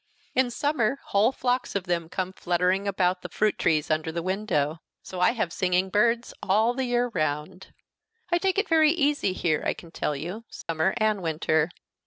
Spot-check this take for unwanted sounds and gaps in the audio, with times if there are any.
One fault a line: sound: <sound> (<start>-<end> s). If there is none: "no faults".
sound: dropout (10.6-10.7 s)